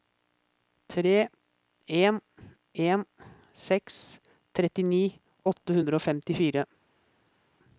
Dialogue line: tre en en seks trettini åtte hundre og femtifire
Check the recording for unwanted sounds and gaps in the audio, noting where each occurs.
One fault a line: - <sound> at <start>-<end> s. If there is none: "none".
none